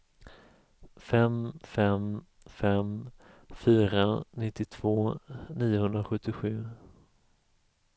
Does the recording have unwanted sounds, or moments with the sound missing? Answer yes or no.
no